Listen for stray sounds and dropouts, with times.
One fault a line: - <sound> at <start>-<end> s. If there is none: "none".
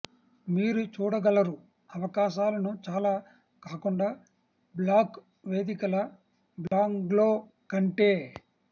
- dropout at 6.7-6.7 s